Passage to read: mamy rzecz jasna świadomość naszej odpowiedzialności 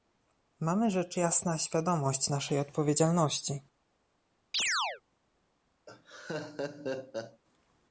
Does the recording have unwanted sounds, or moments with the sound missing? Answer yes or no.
yes